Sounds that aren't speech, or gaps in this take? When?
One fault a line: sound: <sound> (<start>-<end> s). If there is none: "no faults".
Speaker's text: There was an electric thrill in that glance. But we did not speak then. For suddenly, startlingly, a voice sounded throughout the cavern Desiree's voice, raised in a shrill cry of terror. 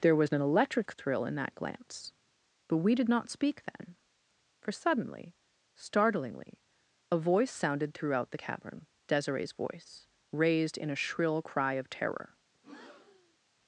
sound: breath (12.5-13.4 s)